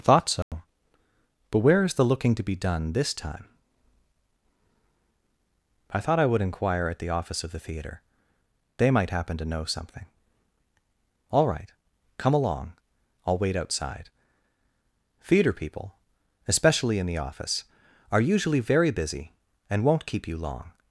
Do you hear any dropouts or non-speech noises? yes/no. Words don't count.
yes